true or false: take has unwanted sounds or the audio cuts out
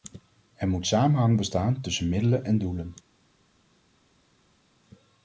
false